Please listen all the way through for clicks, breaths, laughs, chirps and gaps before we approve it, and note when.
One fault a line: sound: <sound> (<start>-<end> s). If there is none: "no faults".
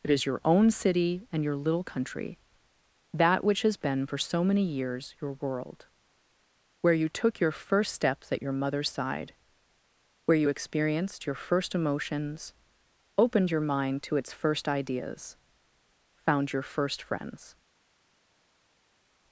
no faults